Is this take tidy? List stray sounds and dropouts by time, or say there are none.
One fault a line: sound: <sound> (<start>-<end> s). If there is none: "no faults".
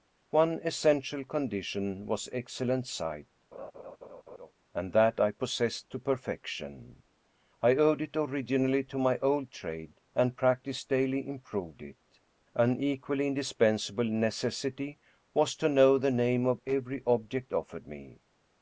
sound: laugh (3.5-4.5 s)